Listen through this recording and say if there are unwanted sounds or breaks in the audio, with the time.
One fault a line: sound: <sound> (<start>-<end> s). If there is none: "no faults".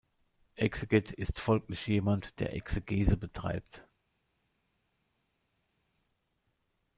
no faults